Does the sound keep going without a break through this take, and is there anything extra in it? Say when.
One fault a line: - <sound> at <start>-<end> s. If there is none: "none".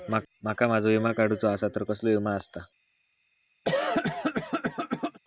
- cough at 3.6-5.2 s